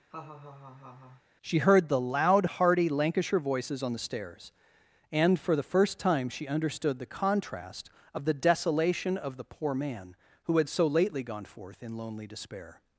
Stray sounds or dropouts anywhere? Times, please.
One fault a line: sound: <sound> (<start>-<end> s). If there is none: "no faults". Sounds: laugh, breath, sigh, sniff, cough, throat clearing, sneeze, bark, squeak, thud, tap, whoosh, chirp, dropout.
sound: laugh (0.1-1.2 s)